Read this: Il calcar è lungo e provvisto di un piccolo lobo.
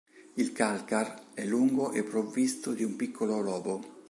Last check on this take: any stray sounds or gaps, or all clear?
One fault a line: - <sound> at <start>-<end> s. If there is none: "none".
none